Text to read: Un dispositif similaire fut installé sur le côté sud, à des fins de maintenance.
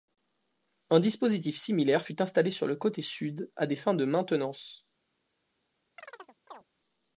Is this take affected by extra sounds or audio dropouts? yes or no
yes